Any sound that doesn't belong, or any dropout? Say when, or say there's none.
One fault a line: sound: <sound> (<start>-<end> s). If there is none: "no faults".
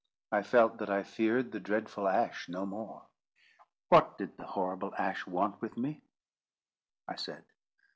no faults